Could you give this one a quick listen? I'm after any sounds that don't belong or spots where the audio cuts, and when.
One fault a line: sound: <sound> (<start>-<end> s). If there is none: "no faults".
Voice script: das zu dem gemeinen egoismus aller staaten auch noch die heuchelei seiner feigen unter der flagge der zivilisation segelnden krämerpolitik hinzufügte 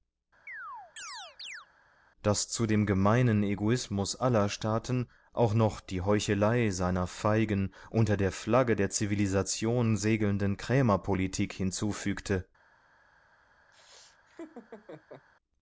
sound: chirp (0.5-1.7 s)
sound: laugh (13.7-15.3 s)